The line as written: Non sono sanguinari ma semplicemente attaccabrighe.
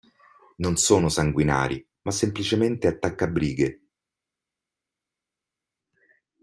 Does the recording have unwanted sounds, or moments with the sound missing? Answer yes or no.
no